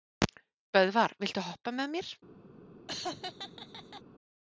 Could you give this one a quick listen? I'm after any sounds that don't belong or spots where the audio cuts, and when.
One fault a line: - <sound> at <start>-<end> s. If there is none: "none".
- laugh at 2.9-4.0 s